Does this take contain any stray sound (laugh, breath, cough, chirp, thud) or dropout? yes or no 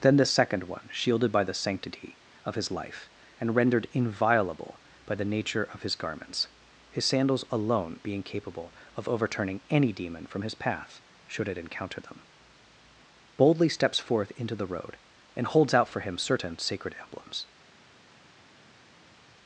no